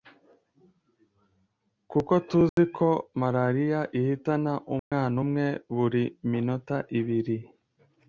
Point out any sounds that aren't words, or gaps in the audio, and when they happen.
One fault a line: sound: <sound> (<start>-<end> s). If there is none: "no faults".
sound: dropout (2.5-2.6 s)
sound: dropout (4.8-4.9 s)